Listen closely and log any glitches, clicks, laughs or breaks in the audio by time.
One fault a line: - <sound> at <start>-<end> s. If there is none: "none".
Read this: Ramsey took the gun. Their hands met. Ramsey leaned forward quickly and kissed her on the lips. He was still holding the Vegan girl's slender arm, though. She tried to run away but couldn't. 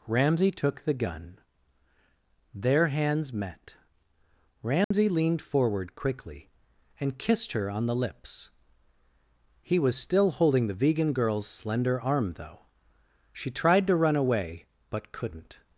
- dropout at 4.8-4.9 s